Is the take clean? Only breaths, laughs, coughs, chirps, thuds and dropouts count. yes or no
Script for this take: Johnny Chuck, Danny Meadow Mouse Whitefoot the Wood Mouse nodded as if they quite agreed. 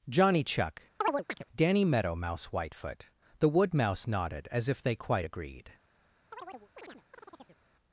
no